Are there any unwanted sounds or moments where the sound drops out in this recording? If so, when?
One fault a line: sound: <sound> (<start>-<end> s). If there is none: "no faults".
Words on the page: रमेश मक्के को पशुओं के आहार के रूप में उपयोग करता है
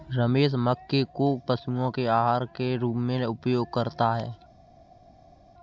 no faults